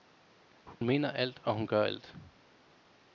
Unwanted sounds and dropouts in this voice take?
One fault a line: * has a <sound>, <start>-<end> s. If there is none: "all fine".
* has a dropout, 0.7-0.8 s